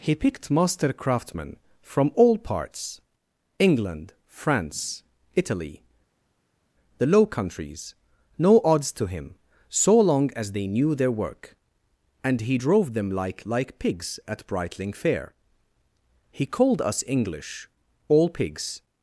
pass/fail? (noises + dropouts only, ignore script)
pass